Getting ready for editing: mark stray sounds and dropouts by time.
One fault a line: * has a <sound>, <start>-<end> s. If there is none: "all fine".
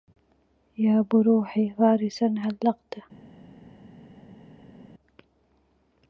all fine